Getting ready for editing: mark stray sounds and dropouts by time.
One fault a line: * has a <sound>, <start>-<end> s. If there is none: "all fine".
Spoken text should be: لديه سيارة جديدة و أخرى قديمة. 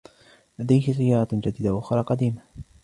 all fine